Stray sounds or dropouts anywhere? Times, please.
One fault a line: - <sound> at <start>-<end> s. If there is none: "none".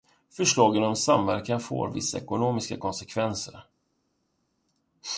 none